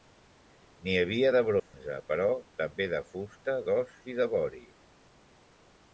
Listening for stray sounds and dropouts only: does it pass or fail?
fail